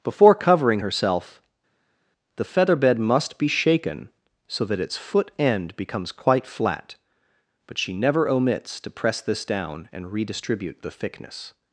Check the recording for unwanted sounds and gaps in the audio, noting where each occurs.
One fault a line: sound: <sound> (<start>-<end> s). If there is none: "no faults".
no faults